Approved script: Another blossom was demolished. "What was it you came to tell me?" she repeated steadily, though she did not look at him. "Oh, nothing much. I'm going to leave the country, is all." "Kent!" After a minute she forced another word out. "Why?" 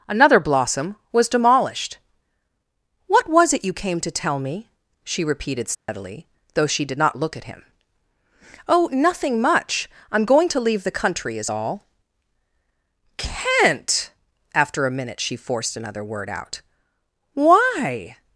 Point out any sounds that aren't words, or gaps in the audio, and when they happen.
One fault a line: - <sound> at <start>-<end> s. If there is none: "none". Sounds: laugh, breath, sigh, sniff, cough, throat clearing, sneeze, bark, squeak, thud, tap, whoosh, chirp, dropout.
- dropout at 5.7-5.9 s